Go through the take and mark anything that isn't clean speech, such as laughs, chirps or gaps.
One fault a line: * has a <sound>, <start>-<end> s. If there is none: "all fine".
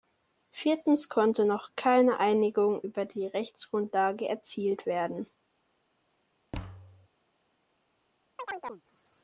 * has a thud, 6.5-7.1 s
* has a chirp, 8.4-8.8 s